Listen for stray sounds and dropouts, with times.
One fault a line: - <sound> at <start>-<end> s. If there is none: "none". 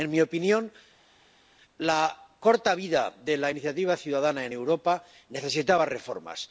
none